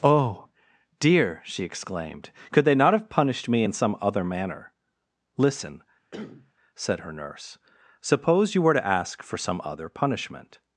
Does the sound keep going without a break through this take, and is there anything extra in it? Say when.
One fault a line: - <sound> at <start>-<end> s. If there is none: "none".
- cough at 6.1-6.5 s